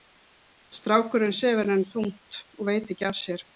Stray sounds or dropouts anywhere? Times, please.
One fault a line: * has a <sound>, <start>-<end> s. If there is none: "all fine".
all fine